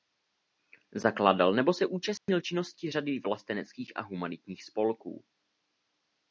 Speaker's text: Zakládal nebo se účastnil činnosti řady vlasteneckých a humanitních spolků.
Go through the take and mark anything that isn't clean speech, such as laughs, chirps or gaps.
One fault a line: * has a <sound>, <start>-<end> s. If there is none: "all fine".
* has a dropout, 2.2-2.3 s